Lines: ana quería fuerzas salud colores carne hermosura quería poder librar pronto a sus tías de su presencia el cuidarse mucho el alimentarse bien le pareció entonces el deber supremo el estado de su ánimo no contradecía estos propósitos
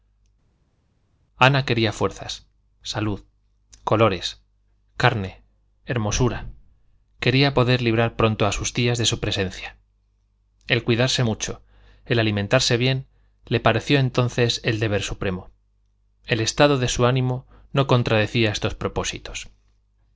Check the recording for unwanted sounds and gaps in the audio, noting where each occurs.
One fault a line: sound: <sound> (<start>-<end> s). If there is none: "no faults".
no faults